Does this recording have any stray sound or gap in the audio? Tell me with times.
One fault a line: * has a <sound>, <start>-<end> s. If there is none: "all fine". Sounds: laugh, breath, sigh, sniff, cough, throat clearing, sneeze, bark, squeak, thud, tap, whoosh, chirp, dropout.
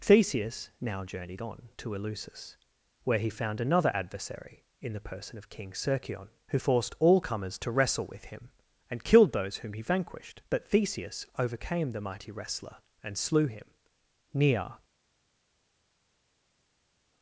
all fine